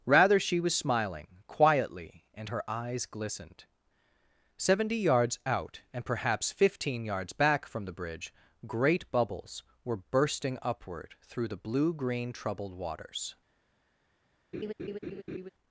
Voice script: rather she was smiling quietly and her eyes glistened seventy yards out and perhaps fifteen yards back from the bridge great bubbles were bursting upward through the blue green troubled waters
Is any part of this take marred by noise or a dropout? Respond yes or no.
yes